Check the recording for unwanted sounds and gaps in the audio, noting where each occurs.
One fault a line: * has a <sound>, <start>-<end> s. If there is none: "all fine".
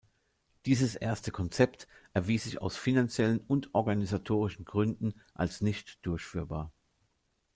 all fine